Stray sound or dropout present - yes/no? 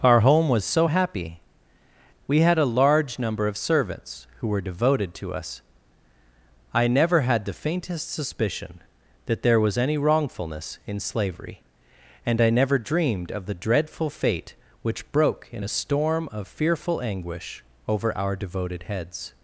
no